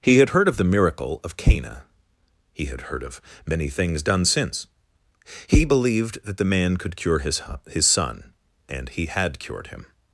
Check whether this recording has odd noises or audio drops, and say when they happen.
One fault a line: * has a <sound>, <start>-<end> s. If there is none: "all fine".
all fine